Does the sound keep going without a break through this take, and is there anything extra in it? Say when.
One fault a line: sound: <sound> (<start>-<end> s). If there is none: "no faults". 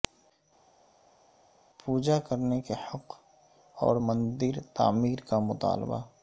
no faults